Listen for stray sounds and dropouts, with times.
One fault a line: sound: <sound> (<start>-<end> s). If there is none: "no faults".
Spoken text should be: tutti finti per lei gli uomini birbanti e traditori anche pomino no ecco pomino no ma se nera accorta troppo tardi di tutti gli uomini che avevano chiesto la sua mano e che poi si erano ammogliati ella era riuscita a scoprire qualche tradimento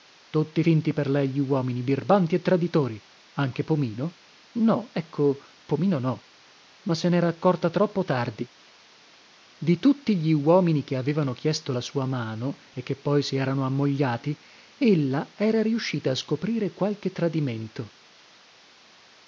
no faults